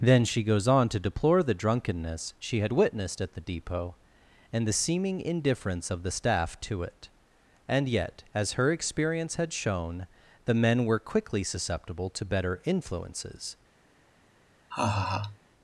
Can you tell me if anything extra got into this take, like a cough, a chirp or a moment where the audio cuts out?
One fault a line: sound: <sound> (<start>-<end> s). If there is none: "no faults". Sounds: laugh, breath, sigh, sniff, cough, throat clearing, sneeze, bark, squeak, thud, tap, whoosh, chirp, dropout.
sound: laugh (14.7-15.4 s)